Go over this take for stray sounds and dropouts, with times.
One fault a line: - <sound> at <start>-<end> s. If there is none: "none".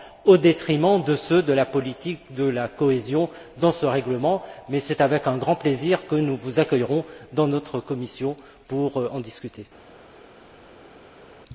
none